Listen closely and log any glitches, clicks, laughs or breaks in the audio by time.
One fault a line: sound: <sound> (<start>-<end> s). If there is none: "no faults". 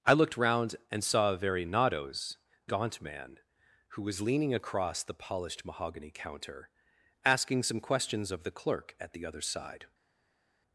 no faults